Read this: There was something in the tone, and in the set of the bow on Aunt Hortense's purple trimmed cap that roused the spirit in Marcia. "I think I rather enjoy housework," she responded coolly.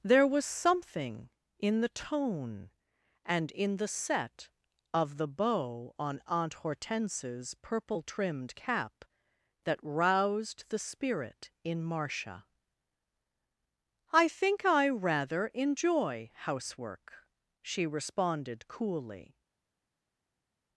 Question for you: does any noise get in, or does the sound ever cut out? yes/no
no